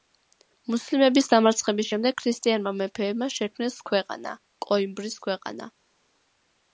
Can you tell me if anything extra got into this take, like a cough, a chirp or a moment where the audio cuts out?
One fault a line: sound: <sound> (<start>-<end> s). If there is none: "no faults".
no faults